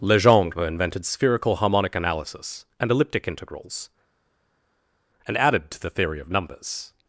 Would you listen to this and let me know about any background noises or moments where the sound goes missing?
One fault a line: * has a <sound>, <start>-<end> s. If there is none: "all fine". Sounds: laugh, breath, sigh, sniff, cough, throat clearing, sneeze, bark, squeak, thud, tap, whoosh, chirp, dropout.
all fine